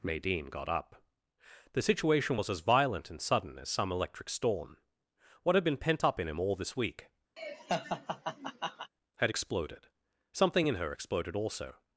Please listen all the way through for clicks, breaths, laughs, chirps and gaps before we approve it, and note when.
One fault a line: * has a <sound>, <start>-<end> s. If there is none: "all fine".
* has a laugh, 7.4-8.9 s